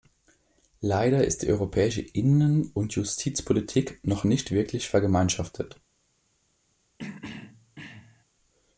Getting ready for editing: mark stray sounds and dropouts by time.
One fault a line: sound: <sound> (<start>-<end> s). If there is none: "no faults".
sound: throat clearing (7.0-8.2 s)